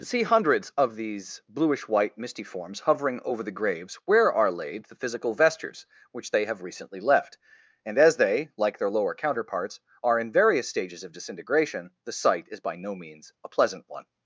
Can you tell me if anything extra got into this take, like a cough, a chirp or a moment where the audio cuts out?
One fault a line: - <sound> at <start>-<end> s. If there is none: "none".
none